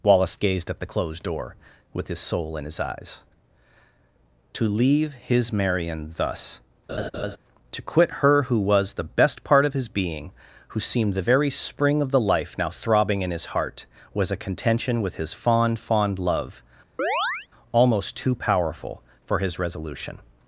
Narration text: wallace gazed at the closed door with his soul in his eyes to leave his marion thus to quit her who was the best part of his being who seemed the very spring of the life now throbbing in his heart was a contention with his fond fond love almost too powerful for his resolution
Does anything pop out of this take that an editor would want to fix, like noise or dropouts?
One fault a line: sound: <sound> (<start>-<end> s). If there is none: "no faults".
sound: laugh (6.9-7.4 s)
sound: chirp (17.0-17.5 s)